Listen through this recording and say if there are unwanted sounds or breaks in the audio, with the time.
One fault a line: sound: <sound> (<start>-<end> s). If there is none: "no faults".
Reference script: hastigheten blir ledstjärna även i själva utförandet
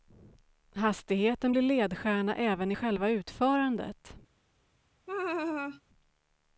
sound: laugh (5.1-5.8 s)